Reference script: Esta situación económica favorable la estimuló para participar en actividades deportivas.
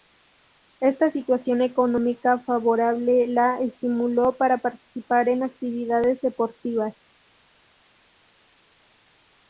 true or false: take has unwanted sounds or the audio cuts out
false